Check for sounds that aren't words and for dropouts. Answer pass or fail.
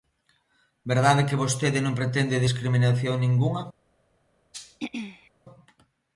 fail